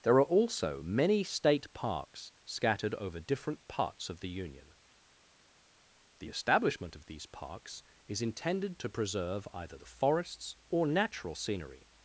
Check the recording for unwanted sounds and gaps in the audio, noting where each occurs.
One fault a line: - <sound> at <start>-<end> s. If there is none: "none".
none